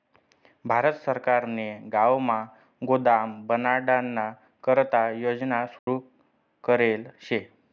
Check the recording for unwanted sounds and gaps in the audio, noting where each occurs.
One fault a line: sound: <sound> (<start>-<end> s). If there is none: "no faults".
sound: dropout (5.8-5.9 s)